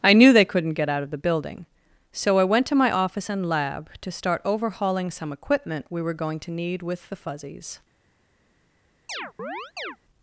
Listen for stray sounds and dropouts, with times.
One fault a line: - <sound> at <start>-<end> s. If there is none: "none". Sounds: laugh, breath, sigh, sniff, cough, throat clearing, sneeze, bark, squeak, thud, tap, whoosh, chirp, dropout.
- chirp at 9.1-10.0 s